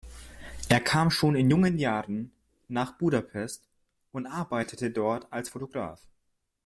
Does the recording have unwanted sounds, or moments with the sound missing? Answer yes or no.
no